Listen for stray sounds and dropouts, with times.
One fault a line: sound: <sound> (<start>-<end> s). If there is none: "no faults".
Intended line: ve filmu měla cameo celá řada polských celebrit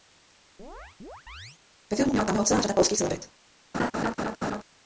sound: chirp (0.6-1.6 s)
sound: laugh (3.7-4.6 s)